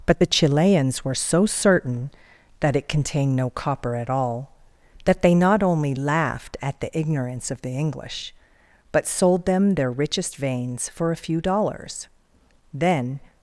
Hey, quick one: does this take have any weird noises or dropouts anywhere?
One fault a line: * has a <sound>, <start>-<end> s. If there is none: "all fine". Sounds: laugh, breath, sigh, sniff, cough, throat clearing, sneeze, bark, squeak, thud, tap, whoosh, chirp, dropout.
all fine